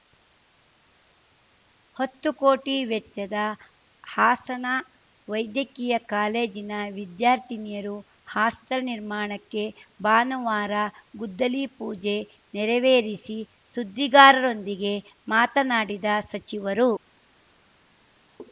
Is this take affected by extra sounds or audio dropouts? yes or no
no